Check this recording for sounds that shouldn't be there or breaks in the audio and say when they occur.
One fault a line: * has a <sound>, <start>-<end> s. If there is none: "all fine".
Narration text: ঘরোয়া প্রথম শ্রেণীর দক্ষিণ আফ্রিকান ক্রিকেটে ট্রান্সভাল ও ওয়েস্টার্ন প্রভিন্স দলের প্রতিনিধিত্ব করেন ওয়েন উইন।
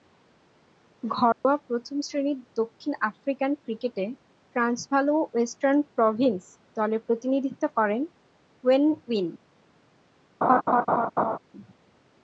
* has a dropout, 1.3-1.4 s
* has a laugh, 10.4-11.4 s